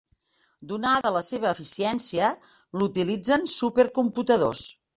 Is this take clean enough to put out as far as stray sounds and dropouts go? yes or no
no